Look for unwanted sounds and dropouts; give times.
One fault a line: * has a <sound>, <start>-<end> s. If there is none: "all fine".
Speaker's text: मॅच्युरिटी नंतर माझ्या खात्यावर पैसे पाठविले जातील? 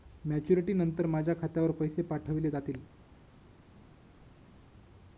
all fine